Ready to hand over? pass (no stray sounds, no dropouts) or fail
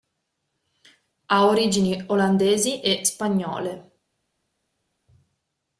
pass